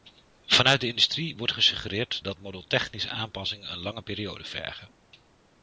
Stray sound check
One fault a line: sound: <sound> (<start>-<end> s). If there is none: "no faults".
no faults